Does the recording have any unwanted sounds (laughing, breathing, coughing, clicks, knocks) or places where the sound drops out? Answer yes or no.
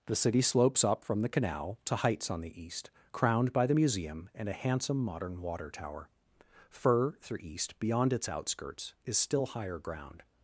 no